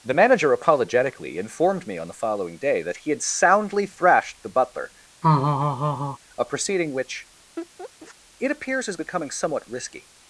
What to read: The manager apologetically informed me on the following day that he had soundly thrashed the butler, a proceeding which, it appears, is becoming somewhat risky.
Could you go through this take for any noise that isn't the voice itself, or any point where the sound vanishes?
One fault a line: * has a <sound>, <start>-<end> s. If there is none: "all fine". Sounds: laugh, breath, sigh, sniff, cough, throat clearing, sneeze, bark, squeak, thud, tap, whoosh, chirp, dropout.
* has a laugh, 5.2-6.2 s
* has a laugh, 7.6-8.2 s